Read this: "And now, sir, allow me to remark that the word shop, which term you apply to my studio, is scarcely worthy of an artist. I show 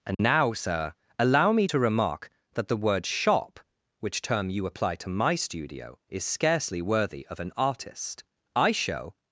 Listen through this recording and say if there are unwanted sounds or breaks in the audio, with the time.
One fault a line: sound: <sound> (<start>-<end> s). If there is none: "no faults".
sound: dropout (0.1-0.2 s)